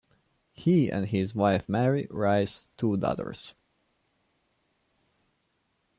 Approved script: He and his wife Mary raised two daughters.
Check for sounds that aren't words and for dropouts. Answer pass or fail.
pass